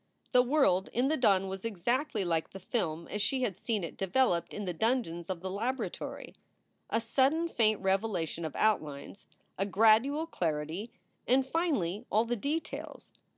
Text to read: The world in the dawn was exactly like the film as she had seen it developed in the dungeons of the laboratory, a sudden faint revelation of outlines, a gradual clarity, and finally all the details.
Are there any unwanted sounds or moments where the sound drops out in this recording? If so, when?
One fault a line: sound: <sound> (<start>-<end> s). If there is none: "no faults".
no faults